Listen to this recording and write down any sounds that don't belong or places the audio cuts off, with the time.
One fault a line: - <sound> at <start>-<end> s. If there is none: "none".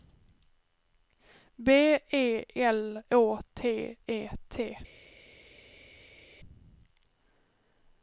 none